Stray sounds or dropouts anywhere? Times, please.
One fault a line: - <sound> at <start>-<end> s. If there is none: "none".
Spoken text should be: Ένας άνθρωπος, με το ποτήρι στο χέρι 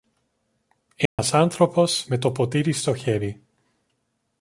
- dropout at 1.1-1.2 s